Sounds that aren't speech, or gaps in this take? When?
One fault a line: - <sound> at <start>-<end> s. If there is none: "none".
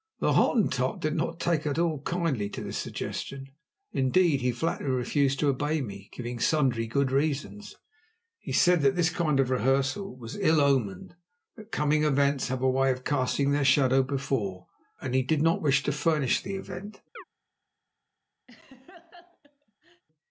- chirp at 17.2-17.2 s
- laugh at 18.5-20.0 s